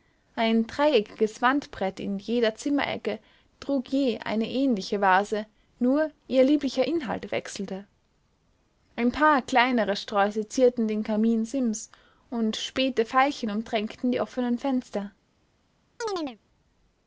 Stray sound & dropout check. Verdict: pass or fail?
fail